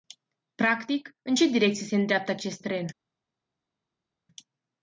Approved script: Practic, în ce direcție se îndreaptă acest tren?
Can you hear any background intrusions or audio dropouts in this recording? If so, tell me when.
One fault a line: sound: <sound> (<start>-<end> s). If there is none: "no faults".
no faults